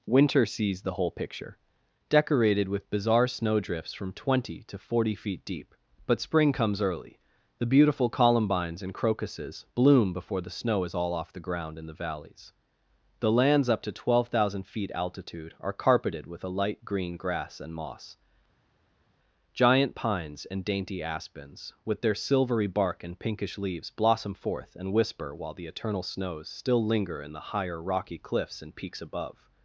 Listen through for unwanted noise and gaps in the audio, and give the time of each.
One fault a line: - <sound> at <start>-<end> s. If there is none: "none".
none